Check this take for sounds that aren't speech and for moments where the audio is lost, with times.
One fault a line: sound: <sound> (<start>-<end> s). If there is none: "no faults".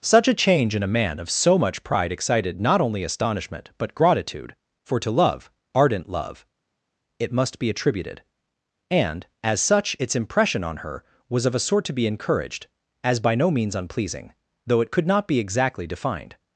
no faults